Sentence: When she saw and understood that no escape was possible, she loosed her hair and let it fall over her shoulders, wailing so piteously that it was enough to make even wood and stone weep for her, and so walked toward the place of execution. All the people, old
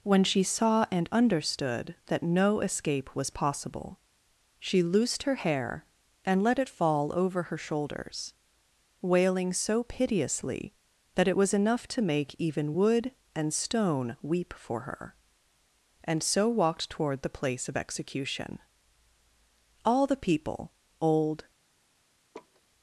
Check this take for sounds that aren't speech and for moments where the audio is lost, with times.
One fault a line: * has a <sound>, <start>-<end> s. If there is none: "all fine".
* has a laugh, 22.3-22.6 s